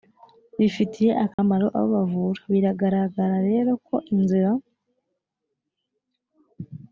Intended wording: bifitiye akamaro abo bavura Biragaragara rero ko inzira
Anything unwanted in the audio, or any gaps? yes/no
yes